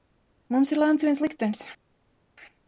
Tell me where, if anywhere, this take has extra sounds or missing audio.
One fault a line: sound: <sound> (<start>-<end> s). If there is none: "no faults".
no faults